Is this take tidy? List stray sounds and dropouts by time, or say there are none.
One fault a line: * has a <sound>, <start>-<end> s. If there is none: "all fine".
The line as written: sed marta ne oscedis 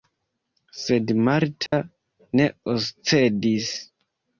* has a dropout, 1.7-1.7 s